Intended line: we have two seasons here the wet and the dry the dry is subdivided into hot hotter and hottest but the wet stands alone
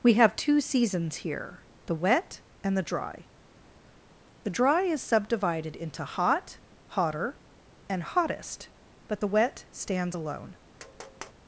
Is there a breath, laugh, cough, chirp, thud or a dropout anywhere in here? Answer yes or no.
yes